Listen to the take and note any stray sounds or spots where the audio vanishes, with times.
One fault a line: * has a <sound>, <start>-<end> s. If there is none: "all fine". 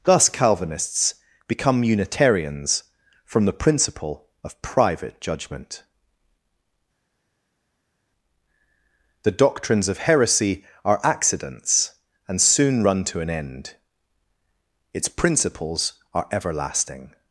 all fine